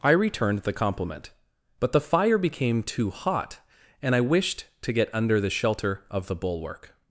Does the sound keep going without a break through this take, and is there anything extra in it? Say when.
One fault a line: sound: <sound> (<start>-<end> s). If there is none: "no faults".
no faults